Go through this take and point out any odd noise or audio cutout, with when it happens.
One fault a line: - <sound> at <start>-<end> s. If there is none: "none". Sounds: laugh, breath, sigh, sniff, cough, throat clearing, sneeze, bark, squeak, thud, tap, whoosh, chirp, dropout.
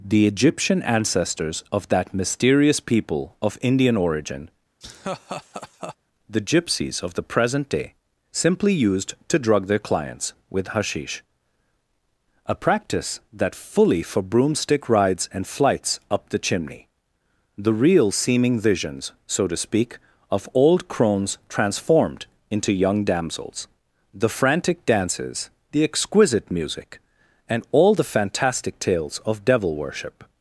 - laugh at 4.8-6.0 s